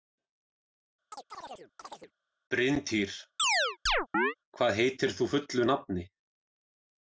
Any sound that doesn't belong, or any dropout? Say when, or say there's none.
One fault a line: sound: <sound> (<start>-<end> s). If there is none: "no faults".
sound: chirp (1.1-2.1 s)
sound: chirp (3.4-4.3 s)